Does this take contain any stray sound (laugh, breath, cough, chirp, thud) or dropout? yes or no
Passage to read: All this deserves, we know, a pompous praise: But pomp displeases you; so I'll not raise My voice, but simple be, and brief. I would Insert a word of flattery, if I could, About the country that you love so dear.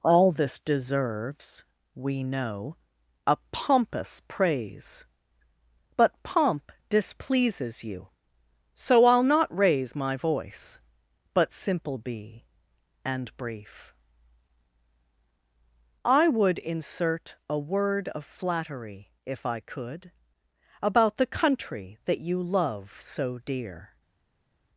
no